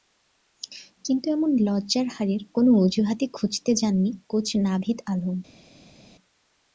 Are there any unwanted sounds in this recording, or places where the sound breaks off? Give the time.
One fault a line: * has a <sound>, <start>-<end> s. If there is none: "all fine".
all fine